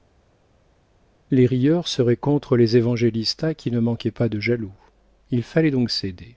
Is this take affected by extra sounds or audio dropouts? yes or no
no